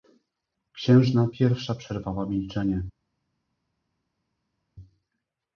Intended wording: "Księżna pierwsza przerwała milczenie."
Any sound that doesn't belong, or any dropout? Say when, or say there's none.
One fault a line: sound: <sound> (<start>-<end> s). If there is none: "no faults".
no faults